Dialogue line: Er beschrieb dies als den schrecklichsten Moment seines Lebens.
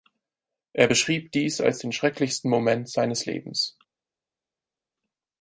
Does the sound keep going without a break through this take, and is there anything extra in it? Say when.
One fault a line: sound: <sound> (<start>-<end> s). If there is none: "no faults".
no faults